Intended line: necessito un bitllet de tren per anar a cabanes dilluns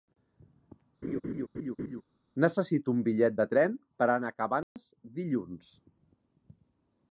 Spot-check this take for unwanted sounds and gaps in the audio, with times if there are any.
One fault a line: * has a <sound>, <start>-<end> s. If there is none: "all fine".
* has a laugh, 1.0-2.0 s
* has a dropout, 4.6-4.8 s